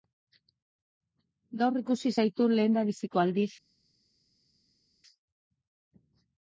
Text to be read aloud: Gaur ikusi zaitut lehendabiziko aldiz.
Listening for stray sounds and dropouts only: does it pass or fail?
pass